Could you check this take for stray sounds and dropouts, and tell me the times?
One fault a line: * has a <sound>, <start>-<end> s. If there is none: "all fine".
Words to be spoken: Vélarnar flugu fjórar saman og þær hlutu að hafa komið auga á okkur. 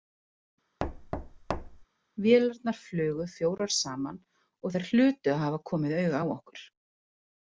* has a thud, 0.8-1.8 s